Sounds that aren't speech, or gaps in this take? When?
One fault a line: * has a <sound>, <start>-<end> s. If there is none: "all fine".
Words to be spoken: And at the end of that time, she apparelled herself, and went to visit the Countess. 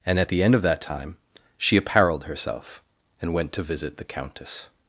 all fine